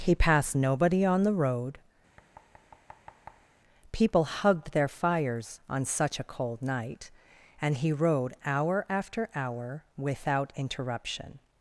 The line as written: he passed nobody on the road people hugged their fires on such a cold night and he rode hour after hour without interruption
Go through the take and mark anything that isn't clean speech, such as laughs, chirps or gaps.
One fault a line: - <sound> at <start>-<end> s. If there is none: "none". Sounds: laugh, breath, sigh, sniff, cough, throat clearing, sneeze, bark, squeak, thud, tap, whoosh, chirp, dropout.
- thud at 2.2-3.6 s